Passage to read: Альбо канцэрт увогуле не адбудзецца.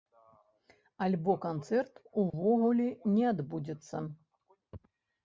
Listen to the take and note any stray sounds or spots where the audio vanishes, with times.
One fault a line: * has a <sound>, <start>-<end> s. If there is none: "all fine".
* has a dropout, 2.3-2.3 s